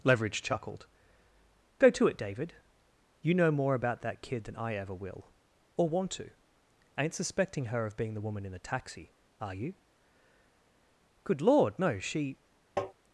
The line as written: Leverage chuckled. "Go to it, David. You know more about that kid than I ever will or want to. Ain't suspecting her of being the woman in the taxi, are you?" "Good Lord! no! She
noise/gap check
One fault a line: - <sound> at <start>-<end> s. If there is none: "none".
- tap at 12.8-12.9 s